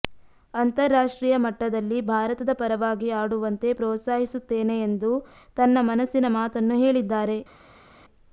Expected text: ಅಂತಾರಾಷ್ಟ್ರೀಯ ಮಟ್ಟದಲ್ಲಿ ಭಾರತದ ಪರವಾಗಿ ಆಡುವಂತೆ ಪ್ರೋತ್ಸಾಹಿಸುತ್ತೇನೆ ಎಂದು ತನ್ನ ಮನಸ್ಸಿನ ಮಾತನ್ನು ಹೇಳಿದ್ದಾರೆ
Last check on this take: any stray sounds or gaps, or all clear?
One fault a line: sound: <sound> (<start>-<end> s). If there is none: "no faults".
no faults